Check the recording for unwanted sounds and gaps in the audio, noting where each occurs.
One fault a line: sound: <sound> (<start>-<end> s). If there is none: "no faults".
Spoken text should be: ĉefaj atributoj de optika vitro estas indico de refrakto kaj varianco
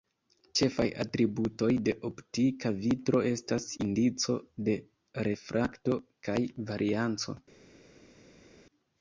no faults